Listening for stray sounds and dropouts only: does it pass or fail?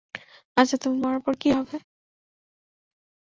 pass